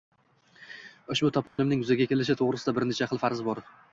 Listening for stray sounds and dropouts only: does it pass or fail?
fail